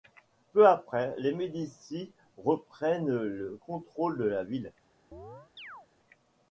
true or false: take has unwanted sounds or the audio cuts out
true